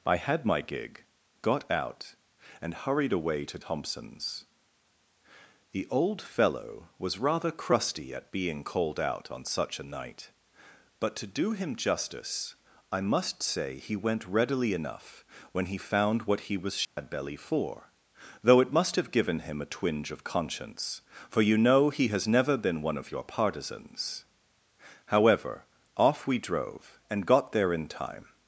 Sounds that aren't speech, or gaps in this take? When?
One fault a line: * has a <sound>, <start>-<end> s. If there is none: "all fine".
* has a dropout, 16.8-17.0 s